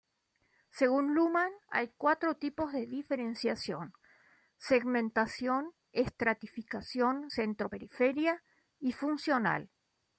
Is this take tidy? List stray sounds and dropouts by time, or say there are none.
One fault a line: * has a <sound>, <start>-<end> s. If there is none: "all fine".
all fine